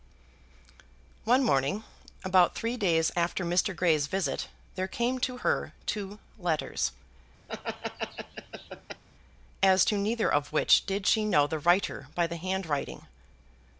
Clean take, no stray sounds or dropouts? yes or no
no